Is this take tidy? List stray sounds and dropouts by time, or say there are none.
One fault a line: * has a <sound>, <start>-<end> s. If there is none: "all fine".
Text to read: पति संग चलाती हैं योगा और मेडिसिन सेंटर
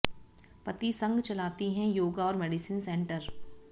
all fine